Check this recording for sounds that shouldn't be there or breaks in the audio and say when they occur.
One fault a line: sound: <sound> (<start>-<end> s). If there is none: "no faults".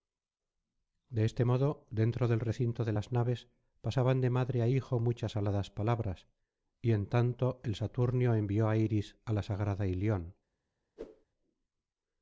sound: whoosh (11.0-11.3 s)